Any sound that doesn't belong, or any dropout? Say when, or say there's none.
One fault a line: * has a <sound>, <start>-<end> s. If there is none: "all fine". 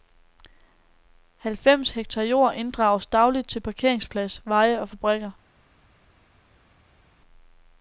all fine